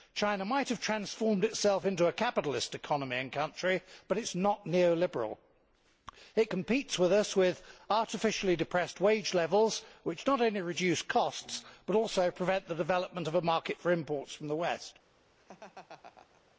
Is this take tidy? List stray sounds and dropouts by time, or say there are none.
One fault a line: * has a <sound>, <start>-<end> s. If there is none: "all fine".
* has a laugh, 15.4-16.6 s